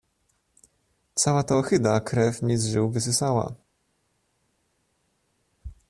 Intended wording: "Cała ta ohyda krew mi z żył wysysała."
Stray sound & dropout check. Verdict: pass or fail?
pass